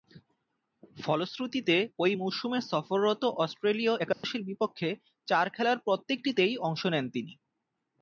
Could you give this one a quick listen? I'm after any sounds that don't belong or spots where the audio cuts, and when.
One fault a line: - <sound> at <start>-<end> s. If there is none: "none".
- dropout at 4.1-4.2 s